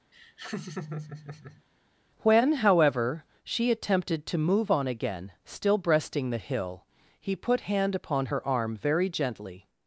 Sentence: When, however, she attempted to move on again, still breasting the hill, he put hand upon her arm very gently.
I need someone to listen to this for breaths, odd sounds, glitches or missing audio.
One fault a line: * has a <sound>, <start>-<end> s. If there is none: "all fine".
* has a laugh, 0.1-1.6 s